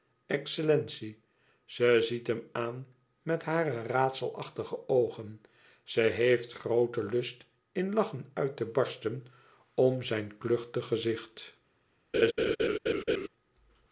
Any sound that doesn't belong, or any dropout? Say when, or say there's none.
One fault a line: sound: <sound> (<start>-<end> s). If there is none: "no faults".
sound: laugh (12.1-13.3 s)